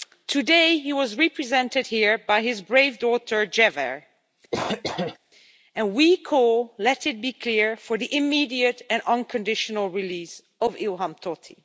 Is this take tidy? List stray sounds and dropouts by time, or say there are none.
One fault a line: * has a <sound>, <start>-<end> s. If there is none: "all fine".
* has a cough, 4.5-5.2 s